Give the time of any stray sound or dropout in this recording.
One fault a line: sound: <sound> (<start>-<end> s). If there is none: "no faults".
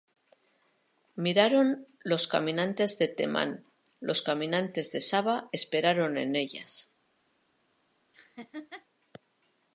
sound: laugh (8.1-8.9 s)